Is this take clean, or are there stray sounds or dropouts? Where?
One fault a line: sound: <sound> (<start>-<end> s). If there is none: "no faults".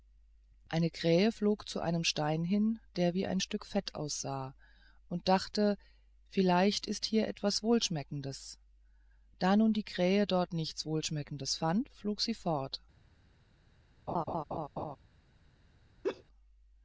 sound: laugh (14.1-15.0 s)
sound: laugh (16.0-16.2 s)